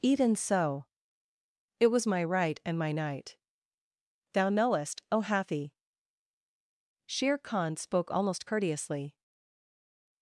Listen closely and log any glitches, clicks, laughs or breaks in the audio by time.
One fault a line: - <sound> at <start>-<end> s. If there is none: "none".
none